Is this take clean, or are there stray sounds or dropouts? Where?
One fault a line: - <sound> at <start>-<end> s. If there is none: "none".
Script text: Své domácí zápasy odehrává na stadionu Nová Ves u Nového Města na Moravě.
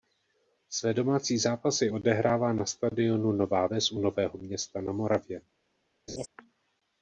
- laugh at 6.1-6.3 s